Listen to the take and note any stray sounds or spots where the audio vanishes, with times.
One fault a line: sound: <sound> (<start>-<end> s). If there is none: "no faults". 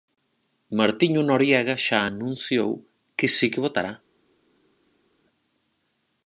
no faults